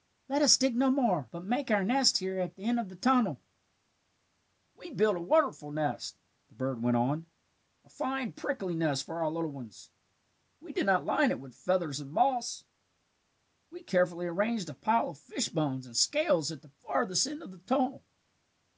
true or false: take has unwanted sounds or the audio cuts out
false